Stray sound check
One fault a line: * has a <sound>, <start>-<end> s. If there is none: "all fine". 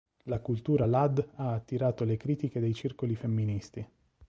all fine